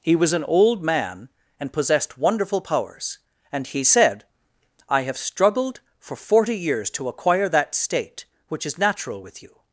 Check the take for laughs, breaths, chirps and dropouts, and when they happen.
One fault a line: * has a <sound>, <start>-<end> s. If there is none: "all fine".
all fine